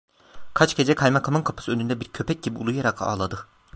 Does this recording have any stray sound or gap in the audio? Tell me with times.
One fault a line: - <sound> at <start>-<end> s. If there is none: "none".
none